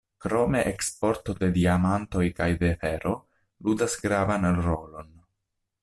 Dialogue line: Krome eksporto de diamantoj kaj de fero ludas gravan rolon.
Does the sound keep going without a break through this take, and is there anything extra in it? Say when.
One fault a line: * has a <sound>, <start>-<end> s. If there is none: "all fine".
all fine